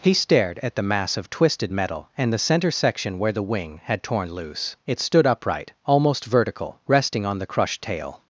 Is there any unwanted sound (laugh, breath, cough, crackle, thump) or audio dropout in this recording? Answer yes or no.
no